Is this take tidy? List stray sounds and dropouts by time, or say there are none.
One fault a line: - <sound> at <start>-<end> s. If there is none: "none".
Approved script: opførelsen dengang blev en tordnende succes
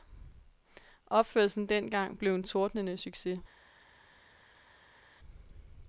none